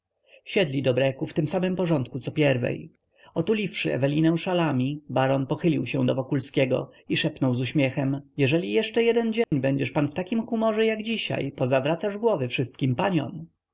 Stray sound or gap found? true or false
true